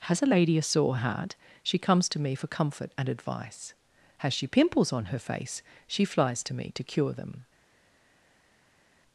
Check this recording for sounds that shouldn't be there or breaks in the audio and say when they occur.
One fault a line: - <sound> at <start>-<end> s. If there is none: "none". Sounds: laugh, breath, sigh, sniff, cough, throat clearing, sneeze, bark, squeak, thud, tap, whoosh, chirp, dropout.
none